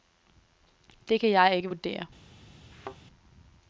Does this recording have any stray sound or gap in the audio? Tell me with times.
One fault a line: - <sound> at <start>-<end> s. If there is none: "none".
- thud at 2.7-3.0 s